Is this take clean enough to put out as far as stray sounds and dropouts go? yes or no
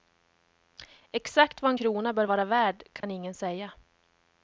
no